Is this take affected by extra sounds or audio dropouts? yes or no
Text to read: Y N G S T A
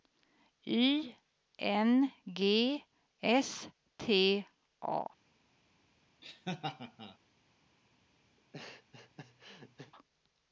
yes